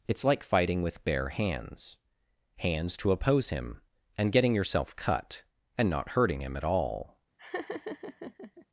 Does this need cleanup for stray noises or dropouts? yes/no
yes